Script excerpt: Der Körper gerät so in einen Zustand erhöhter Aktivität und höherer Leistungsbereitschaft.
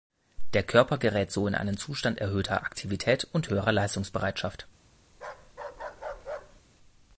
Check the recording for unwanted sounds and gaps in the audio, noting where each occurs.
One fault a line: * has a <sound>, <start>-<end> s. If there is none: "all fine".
* has a bark, 5.1-6.6 s